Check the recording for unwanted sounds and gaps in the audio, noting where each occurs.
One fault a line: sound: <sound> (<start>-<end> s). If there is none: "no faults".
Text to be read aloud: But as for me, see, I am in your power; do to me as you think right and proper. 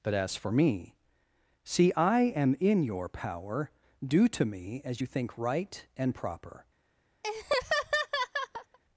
sound: laugh (7.2-8.8 s)